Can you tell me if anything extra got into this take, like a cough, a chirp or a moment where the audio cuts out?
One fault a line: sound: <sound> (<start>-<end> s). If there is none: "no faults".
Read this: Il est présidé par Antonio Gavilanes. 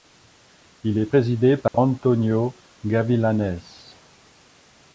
sound: dropout (1.7-1.7 s)